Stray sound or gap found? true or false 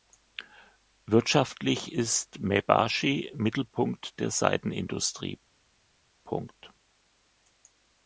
false